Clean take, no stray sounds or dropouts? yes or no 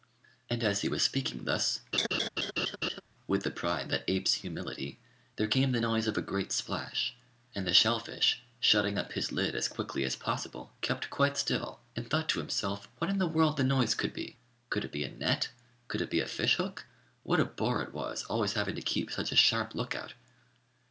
no